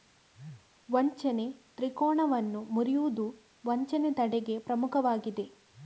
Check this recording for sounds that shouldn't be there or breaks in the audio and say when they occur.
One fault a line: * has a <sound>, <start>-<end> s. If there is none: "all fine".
all fine